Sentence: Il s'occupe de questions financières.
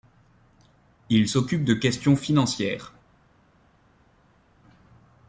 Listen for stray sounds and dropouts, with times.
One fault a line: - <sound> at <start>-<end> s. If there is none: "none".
none